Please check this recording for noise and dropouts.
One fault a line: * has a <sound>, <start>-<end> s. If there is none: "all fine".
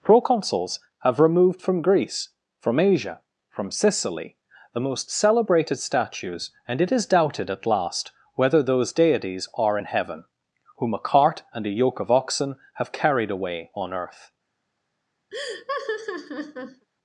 * has a laugh, 15.3-16.9 s